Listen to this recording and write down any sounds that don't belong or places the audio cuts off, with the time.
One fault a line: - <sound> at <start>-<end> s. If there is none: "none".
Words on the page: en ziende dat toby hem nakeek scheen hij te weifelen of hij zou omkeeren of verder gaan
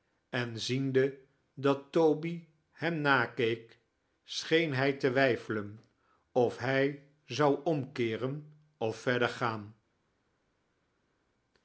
none